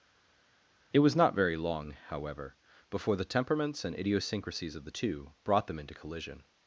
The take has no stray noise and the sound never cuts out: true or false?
true